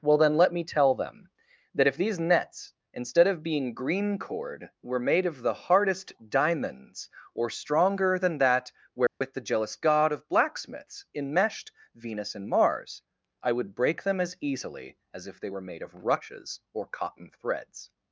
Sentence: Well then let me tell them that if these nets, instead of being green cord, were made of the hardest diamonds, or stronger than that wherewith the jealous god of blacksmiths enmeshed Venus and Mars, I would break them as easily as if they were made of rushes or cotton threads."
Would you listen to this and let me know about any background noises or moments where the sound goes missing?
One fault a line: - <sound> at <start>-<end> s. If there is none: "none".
- dropout at 9.1-9.2 s